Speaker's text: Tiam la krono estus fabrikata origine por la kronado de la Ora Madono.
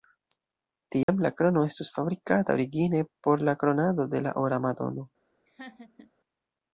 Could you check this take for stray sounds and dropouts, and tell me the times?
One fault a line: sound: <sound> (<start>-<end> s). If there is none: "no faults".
sound: dropout (1.0-1.1 s)
sound: laugh (5.5-6.1 s)